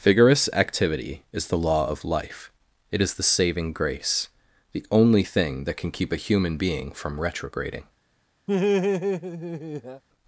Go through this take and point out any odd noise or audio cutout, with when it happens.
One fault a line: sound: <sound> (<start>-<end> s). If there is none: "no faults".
sound: laugh (8.5-10.0 s)